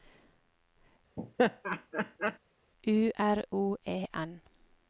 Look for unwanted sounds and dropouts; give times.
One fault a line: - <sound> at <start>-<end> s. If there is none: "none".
- laugh at 1.2-2.4 s